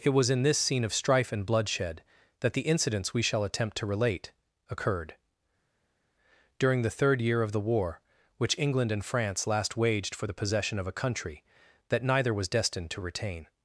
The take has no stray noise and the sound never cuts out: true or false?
true